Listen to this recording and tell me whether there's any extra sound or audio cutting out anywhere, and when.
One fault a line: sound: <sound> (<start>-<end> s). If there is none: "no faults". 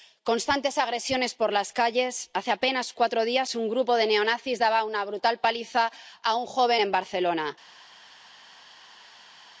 no faults